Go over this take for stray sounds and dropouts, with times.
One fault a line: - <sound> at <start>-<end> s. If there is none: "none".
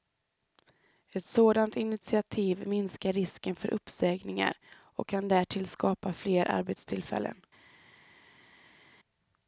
none